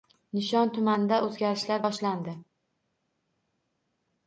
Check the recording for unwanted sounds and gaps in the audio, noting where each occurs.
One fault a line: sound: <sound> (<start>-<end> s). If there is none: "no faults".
no faults